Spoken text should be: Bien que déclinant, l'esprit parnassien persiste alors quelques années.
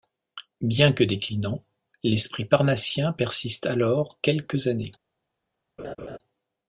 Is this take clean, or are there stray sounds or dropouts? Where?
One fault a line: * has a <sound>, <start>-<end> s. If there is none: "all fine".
* has a laugh, 5.8-6.2 s